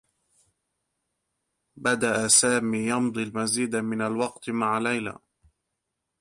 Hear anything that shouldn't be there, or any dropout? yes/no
no